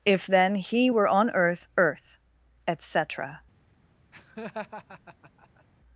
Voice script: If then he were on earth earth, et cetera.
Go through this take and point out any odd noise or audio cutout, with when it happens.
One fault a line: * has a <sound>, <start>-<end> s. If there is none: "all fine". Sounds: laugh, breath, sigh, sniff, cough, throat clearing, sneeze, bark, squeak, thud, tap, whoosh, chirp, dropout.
* has a laugh, 4.1-5.6 s